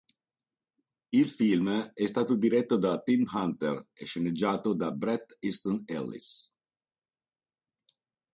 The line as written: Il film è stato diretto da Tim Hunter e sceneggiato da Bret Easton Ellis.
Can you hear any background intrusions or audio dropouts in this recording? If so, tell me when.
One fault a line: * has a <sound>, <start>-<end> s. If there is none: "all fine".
all fine